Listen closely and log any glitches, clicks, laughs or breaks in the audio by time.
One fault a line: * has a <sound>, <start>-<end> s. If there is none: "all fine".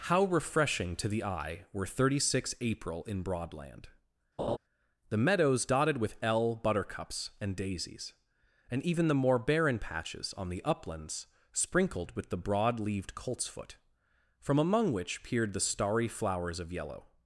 * has a laugh, 4.4-4.6 s